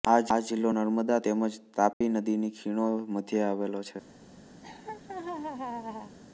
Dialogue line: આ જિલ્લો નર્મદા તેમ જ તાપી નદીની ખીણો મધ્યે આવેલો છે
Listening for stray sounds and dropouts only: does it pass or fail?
fail